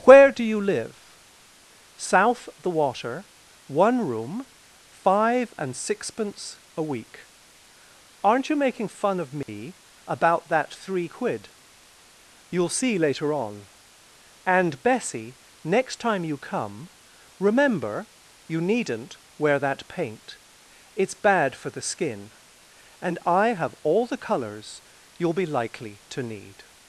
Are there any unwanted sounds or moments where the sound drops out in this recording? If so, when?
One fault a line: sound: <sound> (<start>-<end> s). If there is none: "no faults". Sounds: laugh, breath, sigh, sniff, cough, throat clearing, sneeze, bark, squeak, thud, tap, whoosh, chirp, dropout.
sound: dropout (9.4-9.5 s)